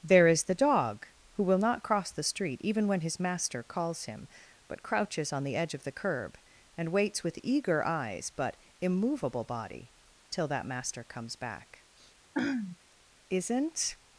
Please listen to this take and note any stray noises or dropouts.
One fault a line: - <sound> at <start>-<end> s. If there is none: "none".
- throat clearing at 12.3-12.8 s